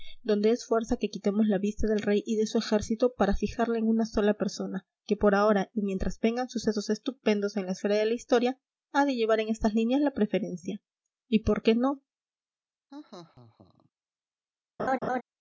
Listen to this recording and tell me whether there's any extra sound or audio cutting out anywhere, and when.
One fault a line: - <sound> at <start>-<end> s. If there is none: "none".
- laugh at 12.9-13.9 s
- laugh at 14.8-15.2 s